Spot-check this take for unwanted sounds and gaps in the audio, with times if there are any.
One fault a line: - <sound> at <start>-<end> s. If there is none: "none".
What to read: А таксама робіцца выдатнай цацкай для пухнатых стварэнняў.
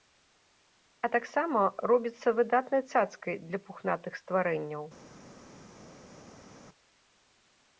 none